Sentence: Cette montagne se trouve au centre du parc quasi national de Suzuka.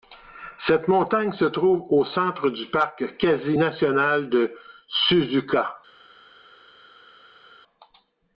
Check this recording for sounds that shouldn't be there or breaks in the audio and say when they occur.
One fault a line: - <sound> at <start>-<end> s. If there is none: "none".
none